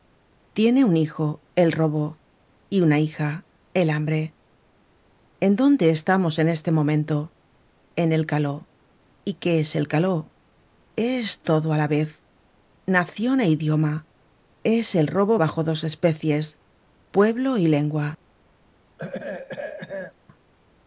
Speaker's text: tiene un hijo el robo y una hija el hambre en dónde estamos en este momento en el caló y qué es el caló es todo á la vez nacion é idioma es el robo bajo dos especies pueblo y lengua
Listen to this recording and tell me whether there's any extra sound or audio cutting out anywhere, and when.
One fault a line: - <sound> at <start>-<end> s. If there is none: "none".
- throat clearing at 19.0-20.1 s